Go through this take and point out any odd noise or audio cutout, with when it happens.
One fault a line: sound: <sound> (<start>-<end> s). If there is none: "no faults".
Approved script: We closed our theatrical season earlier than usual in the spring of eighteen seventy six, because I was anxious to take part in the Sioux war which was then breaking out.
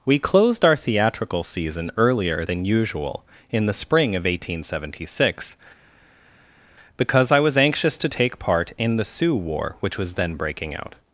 no faults